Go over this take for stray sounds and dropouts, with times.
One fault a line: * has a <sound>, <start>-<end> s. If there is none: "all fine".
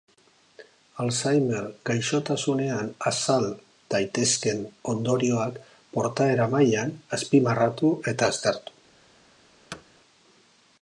* has a thud, 9.7-9.8 s